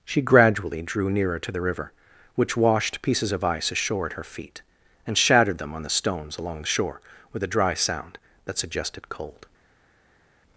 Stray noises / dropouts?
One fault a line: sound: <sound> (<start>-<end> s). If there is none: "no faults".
no faults